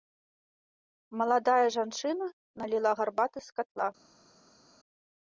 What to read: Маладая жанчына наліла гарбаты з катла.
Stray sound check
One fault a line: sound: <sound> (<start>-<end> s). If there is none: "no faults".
no faults